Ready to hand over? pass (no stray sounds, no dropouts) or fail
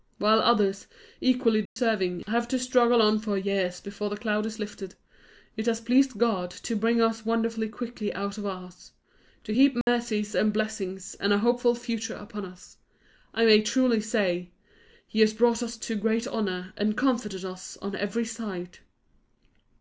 fail